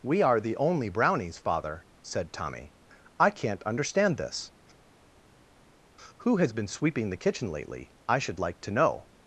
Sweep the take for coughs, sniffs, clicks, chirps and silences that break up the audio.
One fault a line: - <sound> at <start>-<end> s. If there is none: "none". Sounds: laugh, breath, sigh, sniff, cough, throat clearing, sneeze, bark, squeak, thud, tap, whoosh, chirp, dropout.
none